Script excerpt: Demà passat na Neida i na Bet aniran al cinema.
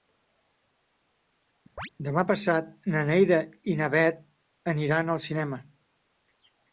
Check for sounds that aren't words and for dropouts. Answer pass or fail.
fail